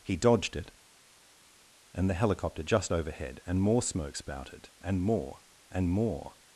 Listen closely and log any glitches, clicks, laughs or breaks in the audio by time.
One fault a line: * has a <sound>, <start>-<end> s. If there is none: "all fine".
all fine